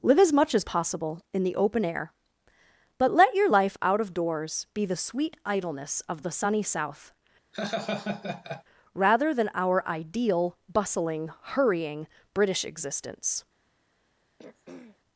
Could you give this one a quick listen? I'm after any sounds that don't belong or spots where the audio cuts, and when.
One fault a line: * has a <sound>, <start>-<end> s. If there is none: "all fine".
* has a laugh, 7.5-8.6 s
* has a throat clearing, 14.4-15.0 s